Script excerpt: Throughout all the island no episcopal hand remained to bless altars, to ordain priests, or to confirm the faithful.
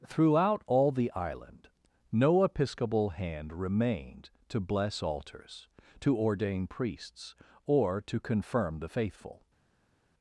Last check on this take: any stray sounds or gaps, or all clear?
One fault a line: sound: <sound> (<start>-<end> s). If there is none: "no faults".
no faults